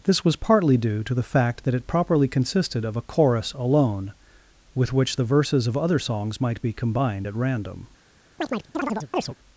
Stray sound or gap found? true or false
true